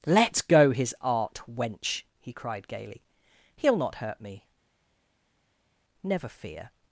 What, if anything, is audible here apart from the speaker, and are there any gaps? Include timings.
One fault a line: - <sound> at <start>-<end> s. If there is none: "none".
none